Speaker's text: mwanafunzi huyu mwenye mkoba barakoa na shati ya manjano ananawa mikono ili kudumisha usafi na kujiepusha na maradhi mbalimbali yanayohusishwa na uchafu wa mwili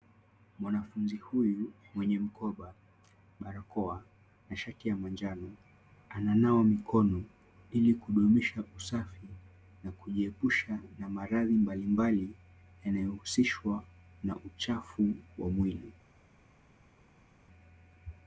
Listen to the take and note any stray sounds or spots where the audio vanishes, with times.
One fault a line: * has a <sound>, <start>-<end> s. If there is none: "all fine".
all fine